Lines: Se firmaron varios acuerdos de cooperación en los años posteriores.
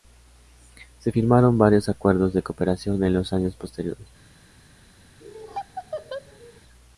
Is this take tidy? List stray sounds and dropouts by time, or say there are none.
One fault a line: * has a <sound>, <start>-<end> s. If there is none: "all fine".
* has a laugh, 5.2-6.6 s